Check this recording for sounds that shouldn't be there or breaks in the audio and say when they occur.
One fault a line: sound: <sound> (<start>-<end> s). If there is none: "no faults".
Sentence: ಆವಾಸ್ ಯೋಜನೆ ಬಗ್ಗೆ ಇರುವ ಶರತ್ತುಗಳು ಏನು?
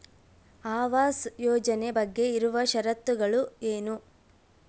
no faults